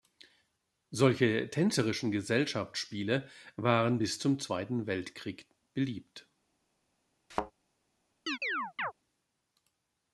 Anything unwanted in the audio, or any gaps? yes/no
yes